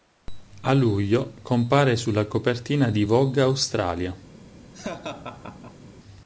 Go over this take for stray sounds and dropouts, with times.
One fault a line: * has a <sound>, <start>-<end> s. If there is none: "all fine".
* has a laugh, 4.7-5.9 s